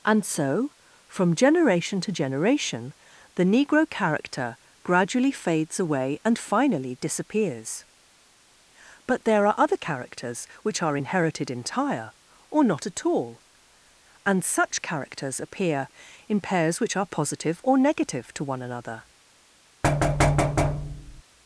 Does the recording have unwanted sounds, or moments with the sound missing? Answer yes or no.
yes